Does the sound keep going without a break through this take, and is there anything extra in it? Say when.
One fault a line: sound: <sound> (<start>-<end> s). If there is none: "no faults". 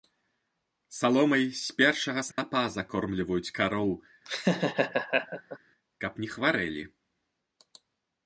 sound: dropout (2.3-2.4 s)
sound: laugh (4.3-5.6 s)